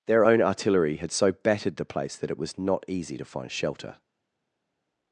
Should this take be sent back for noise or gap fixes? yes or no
no